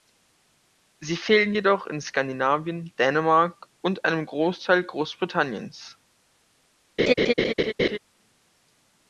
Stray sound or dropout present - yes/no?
yes